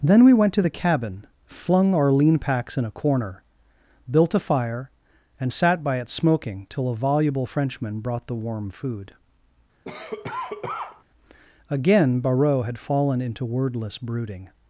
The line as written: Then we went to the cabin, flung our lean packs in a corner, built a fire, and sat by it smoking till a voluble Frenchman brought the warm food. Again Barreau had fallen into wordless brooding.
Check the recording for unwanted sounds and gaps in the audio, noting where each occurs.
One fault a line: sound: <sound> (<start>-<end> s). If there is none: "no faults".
sound: cough (9.8-11.0 s)